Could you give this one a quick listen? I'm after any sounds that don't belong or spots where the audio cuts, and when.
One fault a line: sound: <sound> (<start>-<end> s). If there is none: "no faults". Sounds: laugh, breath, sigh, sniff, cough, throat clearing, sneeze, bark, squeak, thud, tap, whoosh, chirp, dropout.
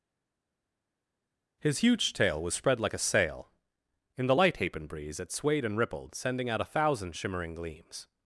no faults